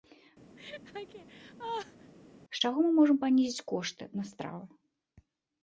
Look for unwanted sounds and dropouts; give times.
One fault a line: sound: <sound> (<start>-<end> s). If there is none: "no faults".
sound: laugh (0.6-2.1 s)